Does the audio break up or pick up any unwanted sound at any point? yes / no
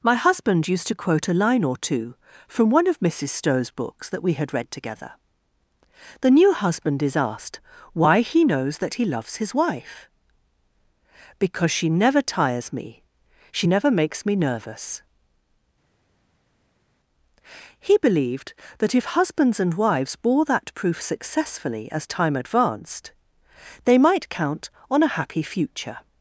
no